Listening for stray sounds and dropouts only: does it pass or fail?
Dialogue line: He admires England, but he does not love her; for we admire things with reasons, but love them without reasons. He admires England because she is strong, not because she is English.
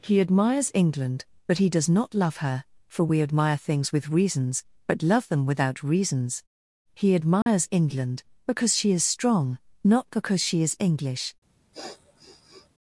fail